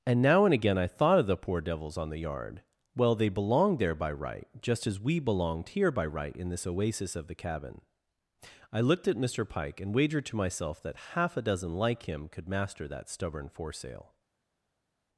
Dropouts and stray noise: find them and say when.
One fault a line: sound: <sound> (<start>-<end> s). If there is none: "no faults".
no faults